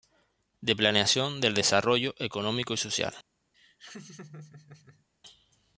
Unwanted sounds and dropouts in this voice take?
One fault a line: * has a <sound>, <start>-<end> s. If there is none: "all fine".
* has a laugh, 3.5-5.1 s